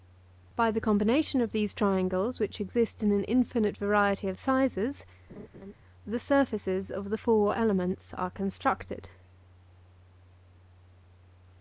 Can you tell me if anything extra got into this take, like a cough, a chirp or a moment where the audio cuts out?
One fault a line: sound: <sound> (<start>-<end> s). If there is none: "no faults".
sound: laugh (5.3-5.7 s)